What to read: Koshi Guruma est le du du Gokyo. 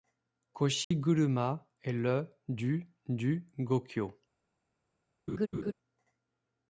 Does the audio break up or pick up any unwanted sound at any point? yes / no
yes